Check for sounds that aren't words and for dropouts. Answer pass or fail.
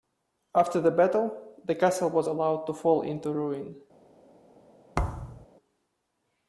fail